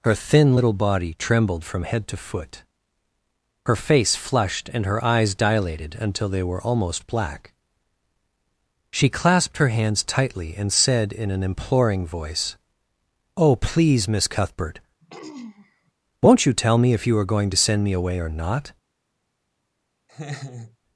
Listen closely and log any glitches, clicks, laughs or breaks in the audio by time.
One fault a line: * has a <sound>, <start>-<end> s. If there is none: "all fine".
* has a throat clearing, 15.0-15.9 s
* has a laugh, 20.1-20.8 s